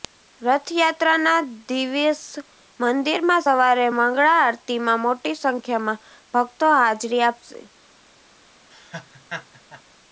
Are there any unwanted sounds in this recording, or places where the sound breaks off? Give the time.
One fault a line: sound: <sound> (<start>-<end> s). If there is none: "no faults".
sound: laugh (8.7-9.8 s)